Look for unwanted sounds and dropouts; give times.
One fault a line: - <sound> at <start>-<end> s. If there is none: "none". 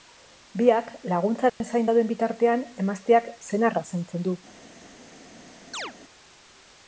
- dropout at 1.5-1.6 s
- chirp at 5.7-5.9 s